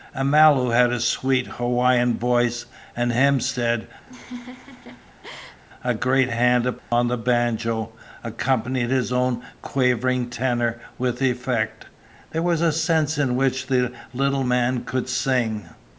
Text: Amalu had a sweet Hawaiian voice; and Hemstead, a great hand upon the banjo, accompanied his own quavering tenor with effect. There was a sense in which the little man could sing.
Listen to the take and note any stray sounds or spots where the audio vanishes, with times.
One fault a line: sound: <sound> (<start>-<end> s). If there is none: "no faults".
sound: laugh (4.0-5.6 s)
sound: dropout (6.8-6.9 s)